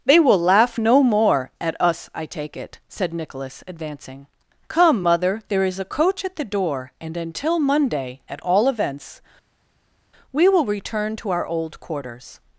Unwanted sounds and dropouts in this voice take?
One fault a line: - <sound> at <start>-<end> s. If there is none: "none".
none